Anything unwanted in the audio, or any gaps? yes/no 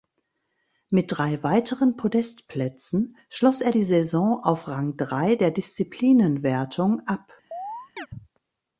yes